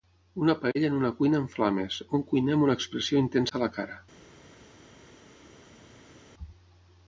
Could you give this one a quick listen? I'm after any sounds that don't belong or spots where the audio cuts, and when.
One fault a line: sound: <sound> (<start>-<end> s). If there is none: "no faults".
no faults